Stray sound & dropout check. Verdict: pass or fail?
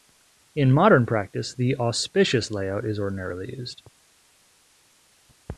pass